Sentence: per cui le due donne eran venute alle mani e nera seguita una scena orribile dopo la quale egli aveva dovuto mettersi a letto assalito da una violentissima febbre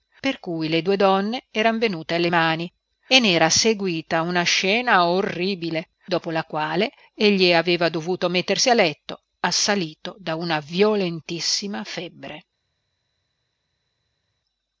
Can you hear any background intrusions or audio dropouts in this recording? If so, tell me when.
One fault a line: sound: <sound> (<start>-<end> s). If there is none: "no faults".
no faults